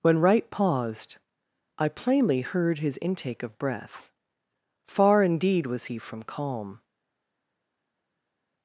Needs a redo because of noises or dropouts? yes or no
no